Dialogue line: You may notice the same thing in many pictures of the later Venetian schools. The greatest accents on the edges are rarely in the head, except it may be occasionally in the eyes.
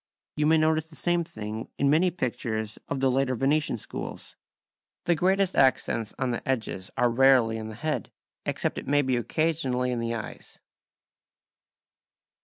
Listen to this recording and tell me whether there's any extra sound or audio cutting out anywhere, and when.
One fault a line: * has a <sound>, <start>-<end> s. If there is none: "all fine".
all fine